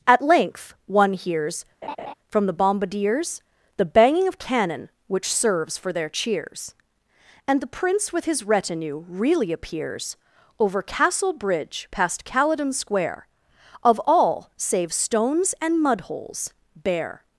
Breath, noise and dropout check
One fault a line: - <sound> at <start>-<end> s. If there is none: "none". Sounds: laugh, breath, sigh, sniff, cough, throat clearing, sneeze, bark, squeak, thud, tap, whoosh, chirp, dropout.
- laugh at 1.8-2.1 s